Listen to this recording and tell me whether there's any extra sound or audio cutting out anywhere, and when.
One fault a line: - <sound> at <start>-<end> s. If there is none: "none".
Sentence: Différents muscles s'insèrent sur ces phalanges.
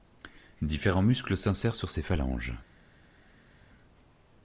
none